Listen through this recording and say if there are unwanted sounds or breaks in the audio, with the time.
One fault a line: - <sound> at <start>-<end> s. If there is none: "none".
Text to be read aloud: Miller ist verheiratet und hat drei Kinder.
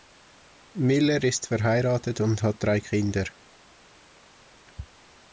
none